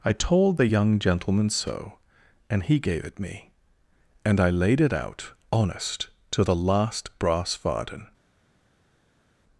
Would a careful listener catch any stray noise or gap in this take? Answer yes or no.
no